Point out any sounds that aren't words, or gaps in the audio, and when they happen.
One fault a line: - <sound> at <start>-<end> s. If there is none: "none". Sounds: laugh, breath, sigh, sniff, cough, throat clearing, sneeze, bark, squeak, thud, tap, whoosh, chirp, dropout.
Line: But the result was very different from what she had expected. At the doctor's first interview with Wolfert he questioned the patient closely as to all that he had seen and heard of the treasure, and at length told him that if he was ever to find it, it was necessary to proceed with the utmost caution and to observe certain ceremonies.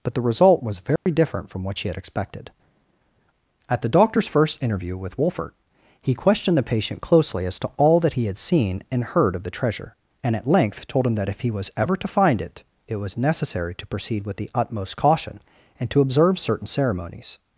- dropout at 1.0-1.1 s